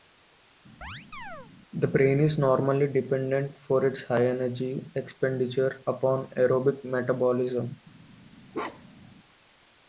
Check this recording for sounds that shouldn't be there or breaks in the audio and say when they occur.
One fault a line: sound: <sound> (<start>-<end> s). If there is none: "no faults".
sound: chirp (0.8-1.5 s)
sound: bark (8.5-9.1 s)